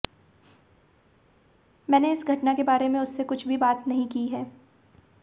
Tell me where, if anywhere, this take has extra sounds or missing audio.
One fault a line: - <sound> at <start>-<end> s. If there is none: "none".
none